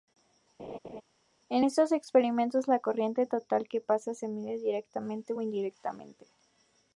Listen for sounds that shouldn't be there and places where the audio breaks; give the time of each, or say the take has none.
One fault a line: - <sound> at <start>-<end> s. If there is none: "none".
- laugh at 0.6-1.0 s